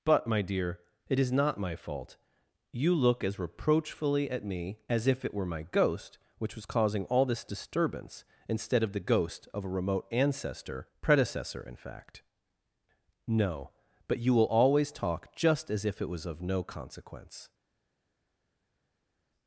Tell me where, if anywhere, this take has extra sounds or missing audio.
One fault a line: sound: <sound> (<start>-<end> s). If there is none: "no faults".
no faults